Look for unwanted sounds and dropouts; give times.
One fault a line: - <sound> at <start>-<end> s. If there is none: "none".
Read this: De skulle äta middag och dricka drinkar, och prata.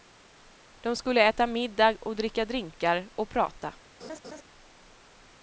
- laugh at 4.0-4.4 s